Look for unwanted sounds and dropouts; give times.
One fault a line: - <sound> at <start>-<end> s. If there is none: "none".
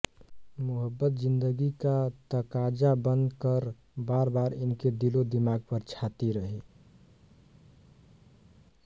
none